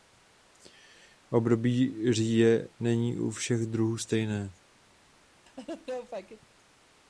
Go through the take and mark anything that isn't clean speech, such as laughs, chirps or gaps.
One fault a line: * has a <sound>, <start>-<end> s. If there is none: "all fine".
* has a laugh, 5.5-6.5 s